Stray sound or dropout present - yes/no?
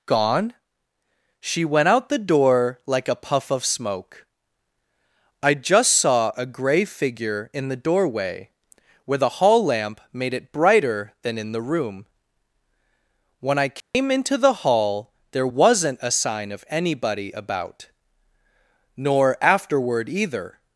yes